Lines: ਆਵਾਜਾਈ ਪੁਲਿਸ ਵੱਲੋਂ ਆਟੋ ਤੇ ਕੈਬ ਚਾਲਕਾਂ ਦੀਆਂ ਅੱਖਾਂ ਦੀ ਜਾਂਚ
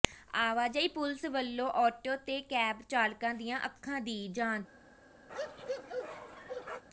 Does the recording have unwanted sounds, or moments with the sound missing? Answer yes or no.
yes